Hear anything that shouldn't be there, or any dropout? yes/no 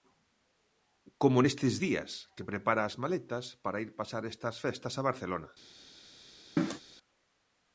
yes